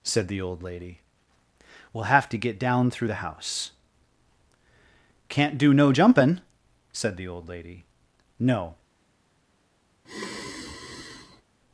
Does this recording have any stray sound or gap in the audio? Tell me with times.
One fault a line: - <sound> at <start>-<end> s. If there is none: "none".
- sigh at 10.0-11.4 s